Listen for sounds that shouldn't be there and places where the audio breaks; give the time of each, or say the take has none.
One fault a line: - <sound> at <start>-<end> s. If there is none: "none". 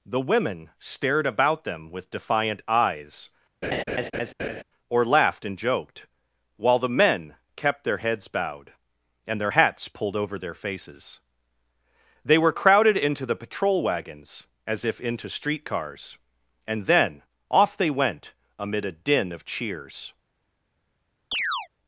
- laugh at 3.6-4.6 s
- chirp at 21.3-21.7 s